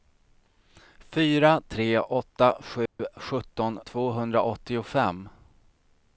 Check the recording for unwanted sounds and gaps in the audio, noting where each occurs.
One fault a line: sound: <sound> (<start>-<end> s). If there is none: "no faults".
sound: dropout (2.9-3.0 s)